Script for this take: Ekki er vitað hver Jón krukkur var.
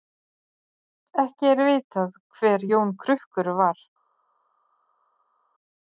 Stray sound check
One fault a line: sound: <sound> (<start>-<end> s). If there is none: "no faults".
no faults